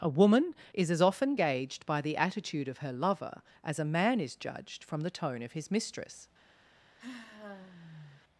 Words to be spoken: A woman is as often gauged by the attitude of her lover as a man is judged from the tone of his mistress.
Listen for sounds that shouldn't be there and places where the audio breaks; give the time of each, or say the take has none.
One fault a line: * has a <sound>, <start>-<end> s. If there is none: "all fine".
* has a sigh, 7.0-8.2 s